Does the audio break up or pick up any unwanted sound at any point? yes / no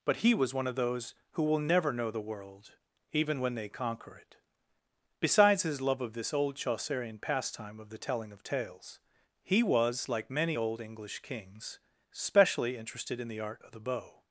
no